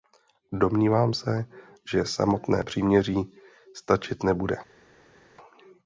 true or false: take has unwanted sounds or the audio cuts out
false